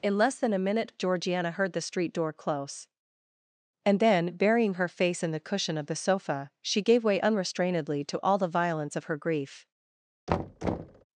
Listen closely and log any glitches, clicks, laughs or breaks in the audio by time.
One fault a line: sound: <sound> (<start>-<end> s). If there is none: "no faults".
sound: thud (10.3-11.0 s)